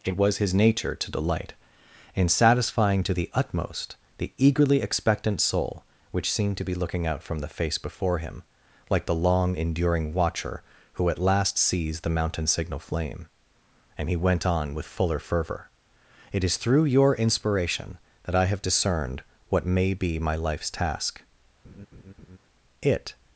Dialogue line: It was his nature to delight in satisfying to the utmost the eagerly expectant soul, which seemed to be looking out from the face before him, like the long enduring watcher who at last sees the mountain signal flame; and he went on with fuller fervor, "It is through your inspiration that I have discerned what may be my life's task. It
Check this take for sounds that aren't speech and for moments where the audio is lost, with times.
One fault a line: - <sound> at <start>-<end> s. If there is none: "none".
- laugh at 21.6-22.4 s